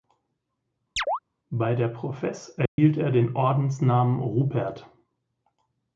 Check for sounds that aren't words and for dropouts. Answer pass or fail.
fail